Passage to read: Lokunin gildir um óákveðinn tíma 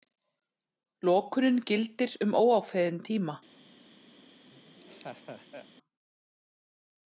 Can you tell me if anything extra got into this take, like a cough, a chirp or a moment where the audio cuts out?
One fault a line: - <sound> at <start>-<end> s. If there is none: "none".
- laugh at 4.5-5.7 s